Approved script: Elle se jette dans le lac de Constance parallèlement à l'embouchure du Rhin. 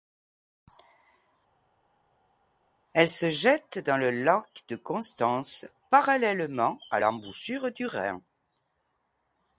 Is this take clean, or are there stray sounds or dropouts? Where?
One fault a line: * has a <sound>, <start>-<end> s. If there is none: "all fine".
all fine